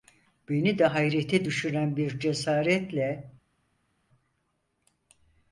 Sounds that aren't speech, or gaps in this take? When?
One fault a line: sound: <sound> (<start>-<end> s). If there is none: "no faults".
no faults